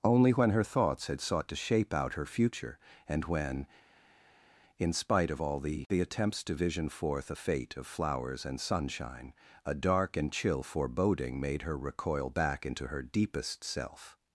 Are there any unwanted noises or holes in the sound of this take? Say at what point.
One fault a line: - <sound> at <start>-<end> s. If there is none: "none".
none